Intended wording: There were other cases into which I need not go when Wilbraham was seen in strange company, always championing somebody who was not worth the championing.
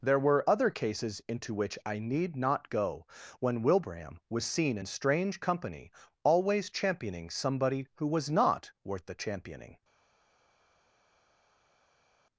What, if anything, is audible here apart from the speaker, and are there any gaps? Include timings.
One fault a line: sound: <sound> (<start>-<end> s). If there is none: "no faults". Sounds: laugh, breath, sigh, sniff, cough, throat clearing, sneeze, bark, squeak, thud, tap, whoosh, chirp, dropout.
no faults